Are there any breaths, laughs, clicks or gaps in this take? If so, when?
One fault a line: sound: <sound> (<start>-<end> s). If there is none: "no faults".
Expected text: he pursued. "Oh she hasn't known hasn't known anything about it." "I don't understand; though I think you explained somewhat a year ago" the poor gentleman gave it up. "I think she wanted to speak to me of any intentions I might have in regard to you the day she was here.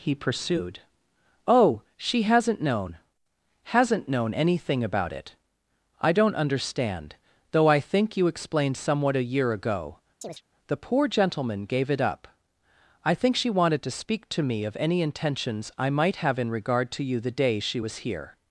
sound: chirp (10.2-10.4 s)